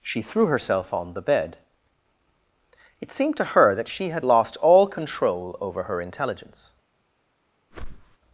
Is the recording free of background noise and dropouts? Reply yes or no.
no